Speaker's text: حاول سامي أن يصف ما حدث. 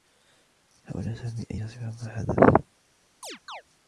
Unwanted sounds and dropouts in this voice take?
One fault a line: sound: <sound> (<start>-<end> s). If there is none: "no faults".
sound: chirp (3.2-3.6 s)